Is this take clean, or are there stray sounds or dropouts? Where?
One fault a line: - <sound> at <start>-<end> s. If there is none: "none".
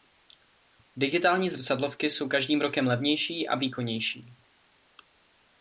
none